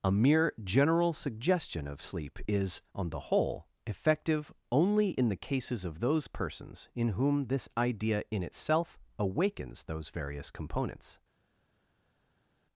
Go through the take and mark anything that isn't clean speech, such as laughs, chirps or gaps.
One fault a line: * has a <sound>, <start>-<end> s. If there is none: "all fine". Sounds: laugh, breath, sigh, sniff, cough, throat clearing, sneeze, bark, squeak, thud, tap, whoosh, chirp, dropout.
all fine